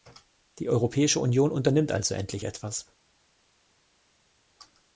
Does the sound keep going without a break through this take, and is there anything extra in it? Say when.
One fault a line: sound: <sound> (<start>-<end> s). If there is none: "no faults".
no faults